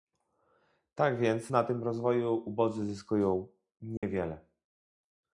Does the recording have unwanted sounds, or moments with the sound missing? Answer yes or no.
yes